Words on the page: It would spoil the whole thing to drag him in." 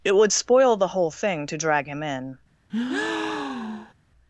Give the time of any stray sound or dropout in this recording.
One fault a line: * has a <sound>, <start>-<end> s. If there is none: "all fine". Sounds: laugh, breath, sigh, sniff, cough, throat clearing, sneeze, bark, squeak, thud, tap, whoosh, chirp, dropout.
* has a breath, 2.7-3.9 s